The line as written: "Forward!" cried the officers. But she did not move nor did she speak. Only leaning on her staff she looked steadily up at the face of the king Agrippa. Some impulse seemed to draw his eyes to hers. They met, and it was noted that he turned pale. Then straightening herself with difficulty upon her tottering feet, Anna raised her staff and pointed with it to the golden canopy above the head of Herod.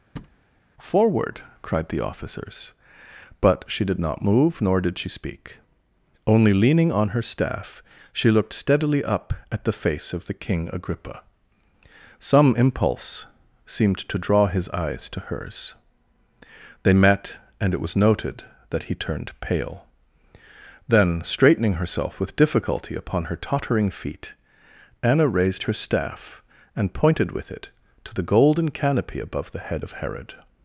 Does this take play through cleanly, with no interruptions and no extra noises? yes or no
no